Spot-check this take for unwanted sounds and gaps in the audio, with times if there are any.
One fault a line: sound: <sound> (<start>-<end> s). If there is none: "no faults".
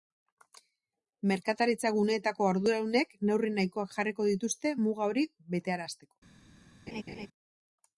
sound: laugh (6.9-7.3 s)